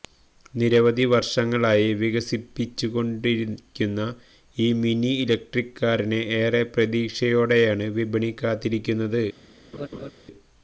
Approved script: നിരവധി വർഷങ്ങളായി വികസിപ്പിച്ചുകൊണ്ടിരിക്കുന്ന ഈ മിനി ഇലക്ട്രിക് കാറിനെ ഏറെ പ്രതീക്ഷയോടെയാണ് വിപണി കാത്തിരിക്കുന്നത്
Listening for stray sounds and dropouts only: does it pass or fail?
fail